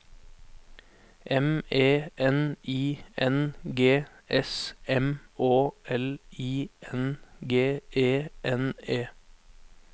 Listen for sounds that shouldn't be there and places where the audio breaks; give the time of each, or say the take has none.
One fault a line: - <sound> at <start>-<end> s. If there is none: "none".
none